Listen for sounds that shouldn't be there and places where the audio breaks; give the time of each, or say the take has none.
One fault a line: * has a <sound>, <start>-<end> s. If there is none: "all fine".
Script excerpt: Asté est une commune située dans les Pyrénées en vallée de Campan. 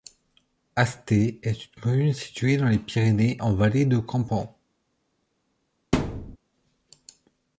* has a thud, 5.9-6.4 s